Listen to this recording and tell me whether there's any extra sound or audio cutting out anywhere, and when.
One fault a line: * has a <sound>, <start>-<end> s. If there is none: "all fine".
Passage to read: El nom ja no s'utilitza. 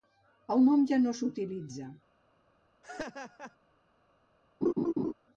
* has a laugh, 2.8-3.6 s
* has a laugh, 4.6-5.1 s